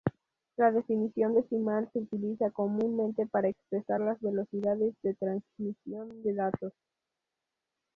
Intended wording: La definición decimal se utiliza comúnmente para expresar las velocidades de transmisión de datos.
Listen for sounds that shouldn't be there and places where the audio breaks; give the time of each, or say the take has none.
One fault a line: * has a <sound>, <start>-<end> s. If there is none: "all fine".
all fine